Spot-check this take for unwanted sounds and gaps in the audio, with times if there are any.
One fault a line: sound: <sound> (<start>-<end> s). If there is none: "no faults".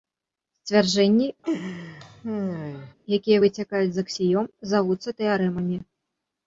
sound: laugh (1.4-2.9 s)